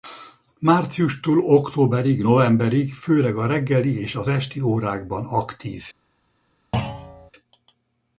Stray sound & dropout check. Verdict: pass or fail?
fail